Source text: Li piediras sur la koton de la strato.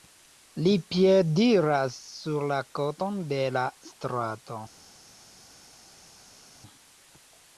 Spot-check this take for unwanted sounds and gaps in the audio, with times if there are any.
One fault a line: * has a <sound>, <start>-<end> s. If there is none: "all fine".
all fine